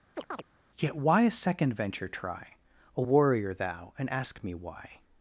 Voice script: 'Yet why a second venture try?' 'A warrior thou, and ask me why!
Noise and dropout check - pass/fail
fail